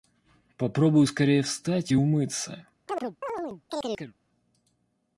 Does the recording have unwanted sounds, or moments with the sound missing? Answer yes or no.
yes